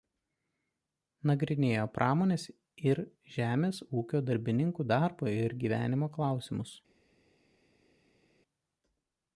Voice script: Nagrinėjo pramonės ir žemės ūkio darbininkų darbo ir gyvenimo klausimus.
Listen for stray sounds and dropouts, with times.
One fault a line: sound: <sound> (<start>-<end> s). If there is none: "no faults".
no faults